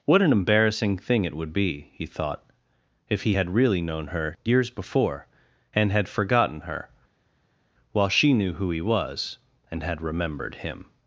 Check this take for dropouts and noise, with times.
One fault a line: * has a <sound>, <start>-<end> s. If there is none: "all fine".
all fine